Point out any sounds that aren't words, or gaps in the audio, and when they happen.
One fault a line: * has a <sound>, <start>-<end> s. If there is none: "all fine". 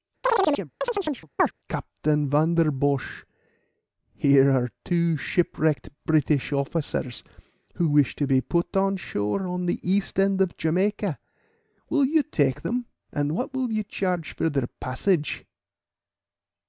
* has a chirp, 0.2-1.5 s